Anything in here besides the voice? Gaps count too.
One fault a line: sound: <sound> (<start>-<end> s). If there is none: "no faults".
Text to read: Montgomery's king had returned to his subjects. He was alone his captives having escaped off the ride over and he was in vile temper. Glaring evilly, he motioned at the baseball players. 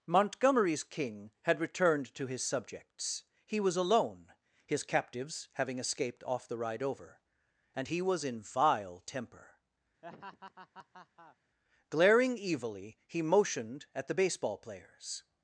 sound: laugh (10.0-11.4 s)